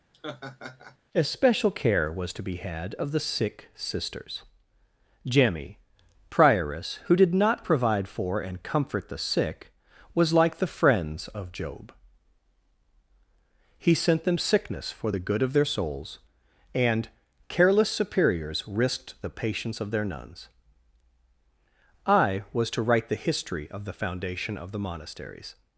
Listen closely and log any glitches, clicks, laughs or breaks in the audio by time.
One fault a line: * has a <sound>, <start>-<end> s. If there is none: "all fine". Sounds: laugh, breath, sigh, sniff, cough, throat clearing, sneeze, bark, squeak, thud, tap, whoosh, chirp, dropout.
* has a laugh, 0.1-1.0 s